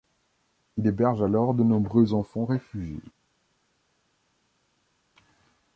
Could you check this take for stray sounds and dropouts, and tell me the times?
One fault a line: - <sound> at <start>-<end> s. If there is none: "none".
none